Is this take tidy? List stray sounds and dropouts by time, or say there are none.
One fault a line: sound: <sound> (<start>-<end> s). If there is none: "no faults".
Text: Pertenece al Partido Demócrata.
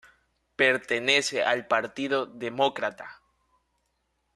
no faults